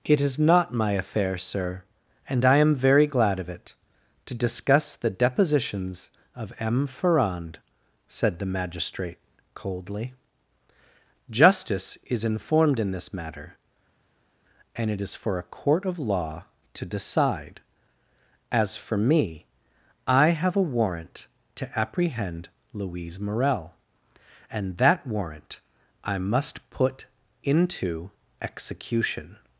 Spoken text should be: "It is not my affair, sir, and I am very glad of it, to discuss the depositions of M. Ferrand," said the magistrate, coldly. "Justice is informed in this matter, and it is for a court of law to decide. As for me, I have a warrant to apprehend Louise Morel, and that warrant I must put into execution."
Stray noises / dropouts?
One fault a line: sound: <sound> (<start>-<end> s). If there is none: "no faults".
no faults